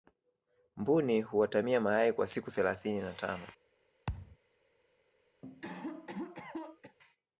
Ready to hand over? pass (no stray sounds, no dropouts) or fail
fail